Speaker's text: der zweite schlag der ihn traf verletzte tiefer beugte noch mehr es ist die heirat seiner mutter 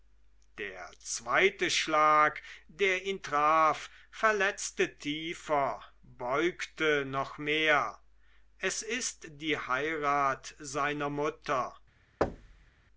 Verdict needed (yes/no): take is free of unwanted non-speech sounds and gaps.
no